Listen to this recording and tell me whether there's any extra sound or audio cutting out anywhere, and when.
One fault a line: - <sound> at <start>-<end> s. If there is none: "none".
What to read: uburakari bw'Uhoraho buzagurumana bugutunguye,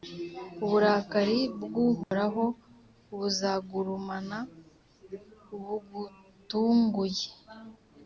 - dropout at 2.0-2.1 s